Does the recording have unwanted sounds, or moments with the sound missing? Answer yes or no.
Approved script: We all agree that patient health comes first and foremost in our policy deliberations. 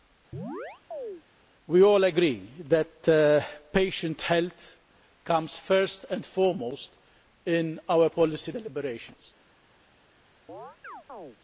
yes